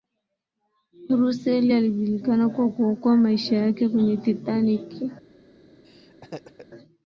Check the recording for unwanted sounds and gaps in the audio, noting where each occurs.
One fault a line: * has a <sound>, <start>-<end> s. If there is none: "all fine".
* has a laugh, 5.8-6.7 s